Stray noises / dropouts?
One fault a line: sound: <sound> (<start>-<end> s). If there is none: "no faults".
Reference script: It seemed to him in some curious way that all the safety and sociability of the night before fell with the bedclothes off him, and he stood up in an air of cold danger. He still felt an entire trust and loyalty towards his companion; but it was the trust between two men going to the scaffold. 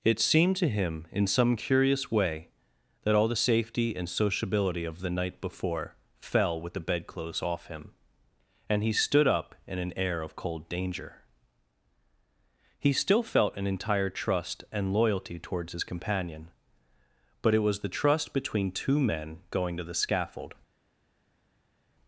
no faults